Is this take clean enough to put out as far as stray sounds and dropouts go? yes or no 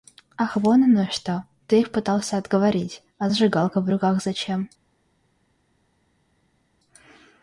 yes